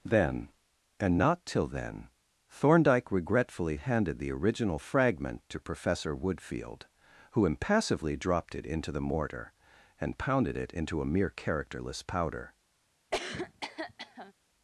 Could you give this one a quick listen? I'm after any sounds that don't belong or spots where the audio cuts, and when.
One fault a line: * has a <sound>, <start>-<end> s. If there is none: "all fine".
* has a cough, 13.1-14.3 s